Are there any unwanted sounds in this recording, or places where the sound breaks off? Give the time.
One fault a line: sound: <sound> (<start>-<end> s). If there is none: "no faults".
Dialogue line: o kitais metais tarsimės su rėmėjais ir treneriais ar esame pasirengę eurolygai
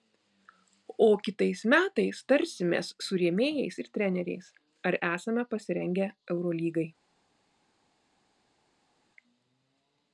no faults